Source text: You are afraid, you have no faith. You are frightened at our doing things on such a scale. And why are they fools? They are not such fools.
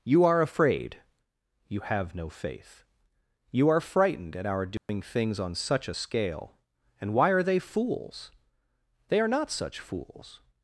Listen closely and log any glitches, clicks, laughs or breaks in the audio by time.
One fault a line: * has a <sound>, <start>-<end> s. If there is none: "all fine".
* has a dropout, 4.8-4.9 s